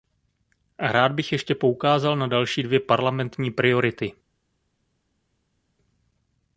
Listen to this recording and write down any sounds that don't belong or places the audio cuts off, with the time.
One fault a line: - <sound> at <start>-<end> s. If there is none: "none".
none